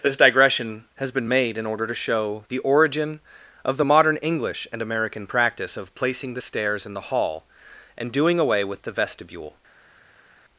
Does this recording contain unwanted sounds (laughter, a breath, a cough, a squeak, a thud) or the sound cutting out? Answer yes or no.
no